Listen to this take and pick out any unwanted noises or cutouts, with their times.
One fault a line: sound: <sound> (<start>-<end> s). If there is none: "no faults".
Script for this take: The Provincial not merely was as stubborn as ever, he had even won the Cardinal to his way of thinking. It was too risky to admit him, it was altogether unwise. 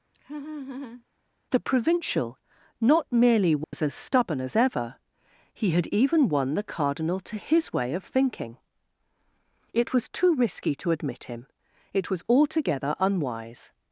sound: laugh (0.1-1.0 s)
sound: dropout (3.6-3.7 s)